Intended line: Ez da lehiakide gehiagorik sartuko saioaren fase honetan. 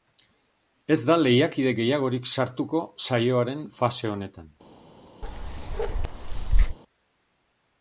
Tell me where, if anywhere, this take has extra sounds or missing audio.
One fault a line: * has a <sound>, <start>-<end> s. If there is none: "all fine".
* has a bark, 5.2-6.8 s